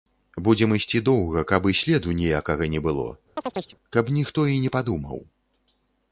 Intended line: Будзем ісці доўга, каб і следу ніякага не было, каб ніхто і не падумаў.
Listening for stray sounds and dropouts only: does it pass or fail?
fail